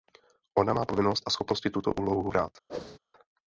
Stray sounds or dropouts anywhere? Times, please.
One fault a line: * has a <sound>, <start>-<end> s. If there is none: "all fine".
* has a whoosh, 2.7-3.0 s